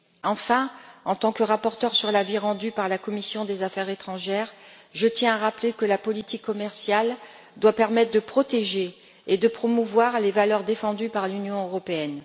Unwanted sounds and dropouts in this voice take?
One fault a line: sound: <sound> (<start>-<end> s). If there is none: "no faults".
no faults